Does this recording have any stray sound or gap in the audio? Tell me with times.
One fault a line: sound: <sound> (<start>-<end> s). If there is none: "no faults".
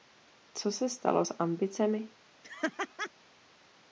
sound: laugh (2.4-3.1 s)